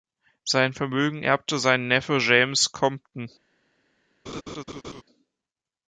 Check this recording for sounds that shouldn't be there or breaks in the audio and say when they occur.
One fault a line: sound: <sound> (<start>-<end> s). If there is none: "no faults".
sound: laugh (4.3-5.0 s)